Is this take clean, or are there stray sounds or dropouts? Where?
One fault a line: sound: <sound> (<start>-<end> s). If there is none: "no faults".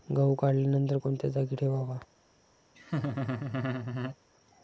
sound: laugh (2.7-4.2 s)